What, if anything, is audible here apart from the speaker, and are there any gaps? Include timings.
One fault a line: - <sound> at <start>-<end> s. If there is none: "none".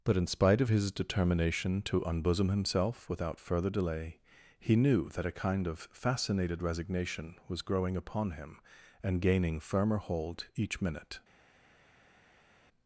none